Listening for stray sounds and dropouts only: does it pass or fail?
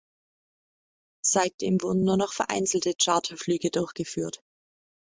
pass